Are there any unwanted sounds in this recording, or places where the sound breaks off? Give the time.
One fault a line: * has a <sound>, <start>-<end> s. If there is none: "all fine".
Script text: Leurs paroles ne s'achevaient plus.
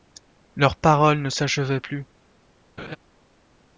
* has a laugh, 2.8-3.0 s